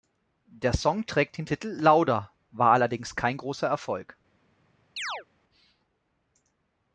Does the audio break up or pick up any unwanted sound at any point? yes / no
yes